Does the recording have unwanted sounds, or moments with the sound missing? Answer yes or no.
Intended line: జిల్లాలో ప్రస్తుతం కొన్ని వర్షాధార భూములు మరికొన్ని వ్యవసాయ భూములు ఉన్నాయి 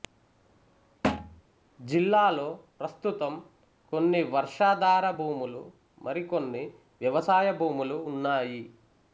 yes